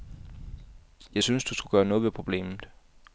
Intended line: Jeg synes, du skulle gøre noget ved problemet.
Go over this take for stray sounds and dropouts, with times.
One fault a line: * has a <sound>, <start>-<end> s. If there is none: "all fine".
all fine